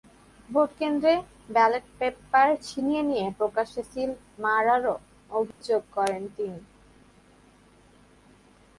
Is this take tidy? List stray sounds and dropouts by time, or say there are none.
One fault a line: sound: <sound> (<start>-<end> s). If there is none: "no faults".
sound: dropout (5.5-5.6 s)